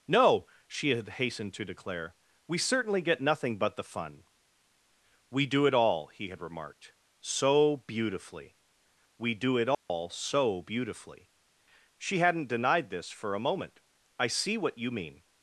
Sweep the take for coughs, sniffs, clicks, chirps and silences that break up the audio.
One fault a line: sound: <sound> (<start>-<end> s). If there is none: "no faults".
sound: dropout (9.7-9.9 s)